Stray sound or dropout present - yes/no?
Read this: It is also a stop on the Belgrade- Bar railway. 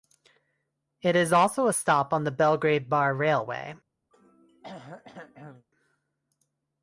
yes